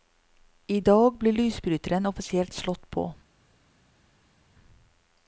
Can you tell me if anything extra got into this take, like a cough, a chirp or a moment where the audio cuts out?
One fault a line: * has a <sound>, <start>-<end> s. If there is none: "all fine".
all fine